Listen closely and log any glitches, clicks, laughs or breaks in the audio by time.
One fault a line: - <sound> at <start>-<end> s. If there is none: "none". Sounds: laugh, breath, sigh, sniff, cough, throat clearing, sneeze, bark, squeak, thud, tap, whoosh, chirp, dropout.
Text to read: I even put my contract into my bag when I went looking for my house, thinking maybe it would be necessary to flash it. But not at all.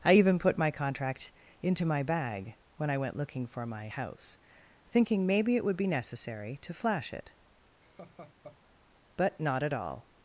- laugh at 7.8-8.6 s